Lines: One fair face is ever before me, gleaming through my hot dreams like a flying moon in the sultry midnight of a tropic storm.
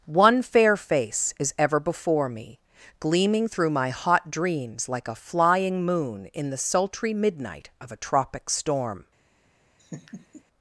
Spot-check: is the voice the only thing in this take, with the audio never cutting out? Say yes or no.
no